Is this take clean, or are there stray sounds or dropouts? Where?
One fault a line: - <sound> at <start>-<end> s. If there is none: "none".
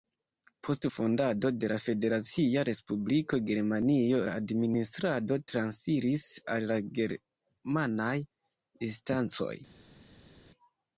none